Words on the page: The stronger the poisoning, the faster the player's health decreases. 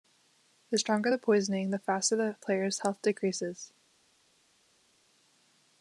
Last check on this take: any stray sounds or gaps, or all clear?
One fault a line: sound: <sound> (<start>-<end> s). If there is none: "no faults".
no faults